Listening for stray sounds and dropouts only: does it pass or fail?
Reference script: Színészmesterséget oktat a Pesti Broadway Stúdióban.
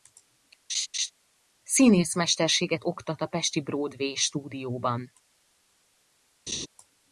fail